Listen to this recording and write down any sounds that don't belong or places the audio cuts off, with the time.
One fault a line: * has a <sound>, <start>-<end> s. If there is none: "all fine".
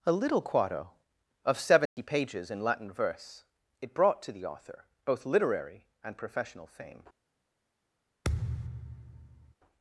* has a dropout, 1.9-2.0 s
* has a thud, 8.2-9.5 s